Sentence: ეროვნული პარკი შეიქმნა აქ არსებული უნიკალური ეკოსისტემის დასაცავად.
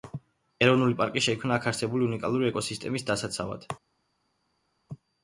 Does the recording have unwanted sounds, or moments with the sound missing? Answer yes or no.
no